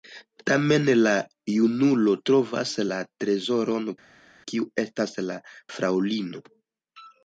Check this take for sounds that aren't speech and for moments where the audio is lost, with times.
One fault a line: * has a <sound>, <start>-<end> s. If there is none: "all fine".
all fine